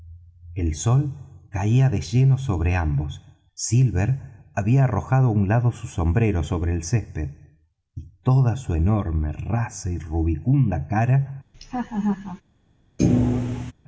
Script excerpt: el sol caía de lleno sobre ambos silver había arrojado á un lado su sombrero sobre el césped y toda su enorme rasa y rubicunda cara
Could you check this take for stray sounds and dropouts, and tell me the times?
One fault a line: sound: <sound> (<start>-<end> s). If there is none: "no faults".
sound: laugh (11.5-12.4 s)
sound: thud (13.0-13.7 s)